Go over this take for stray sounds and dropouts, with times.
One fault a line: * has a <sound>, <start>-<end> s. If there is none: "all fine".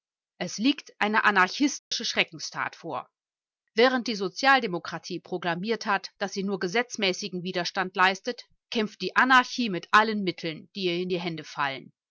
* has a dropout, 1.8-1.9 s